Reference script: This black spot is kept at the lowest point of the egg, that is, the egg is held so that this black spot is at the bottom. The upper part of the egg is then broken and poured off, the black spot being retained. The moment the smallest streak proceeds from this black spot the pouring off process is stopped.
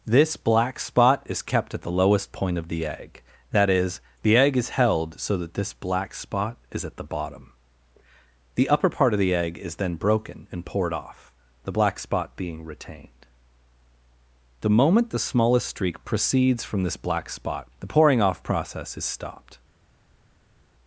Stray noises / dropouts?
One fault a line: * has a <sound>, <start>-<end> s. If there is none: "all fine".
all fine